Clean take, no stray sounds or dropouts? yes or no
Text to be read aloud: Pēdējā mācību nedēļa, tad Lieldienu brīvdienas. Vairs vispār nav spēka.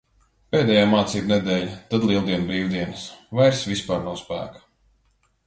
yes